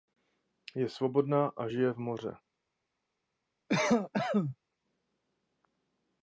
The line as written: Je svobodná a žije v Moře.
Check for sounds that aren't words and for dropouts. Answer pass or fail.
fail